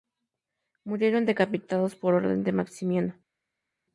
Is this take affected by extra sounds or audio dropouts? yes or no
no